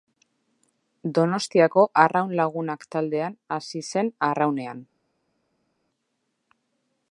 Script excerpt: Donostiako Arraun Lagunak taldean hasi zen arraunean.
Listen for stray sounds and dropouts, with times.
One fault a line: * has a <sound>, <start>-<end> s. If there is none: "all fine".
all fine